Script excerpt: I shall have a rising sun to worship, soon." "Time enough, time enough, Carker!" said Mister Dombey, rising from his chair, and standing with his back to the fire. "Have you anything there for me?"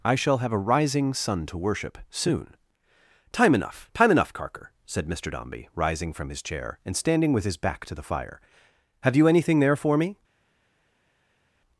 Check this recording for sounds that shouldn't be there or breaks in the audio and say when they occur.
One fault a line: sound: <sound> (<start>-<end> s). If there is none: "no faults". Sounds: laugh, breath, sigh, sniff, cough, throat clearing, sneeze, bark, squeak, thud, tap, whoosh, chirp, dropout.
no faults